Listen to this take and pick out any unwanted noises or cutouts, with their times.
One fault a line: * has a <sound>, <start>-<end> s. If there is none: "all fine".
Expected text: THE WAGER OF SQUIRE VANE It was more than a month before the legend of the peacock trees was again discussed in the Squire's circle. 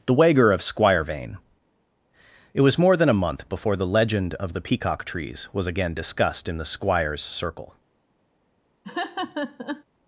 * has a laugh, 8.8-9.8 s